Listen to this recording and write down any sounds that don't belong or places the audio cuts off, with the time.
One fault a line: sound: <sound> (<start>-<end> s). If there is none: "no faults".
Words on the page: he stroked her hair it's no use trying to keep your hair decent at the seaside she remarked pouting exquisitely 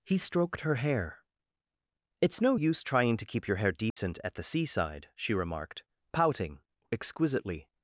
sound: dropout (3.9-4.0 s)